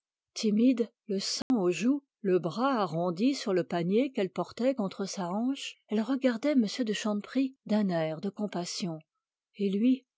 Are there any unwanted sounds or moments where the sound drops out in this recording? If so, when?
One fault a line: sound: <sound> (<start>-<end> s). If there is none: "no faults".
sound: dropout (1.4-1.5 s)